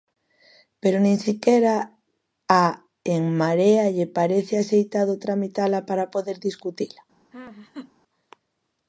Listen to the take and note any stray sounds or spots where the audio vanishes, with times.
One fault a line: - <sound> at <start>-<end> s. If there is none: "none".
- laugh at 7.3-7.9 s